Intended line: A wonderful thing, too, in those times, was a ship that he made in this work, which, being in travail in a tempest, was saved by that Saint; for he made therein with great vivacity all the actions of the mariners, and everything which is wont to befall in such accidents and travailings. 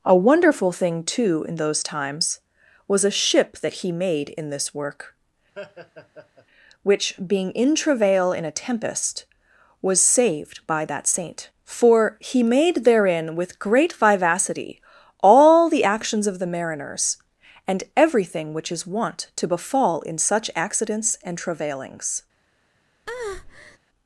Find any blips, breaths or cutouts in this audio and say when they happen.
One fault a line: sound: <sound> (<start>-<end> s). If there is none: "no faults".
sound: laugh (5.5-6.5 s)
sound: breath (23.1-23.8 s)